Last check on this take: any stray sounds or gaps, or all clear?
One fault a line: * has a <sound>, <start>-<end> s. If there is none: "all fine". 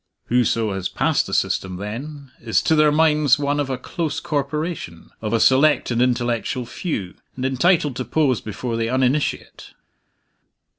all fine